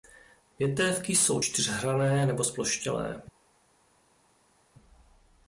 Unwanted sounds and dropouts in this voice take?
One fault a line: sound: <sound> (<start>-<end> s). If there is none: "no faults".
no faults